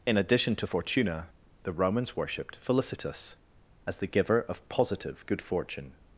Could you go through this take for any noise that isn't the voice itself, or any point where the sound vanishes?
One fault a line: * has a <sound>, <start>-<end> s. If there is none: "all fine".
all fine